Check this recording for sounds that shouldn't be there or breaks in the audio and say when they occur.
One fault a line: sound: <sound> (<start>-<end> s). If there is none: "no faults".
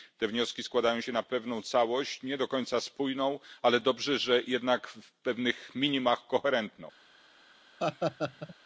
sound: laugh (7.8-8.6 s)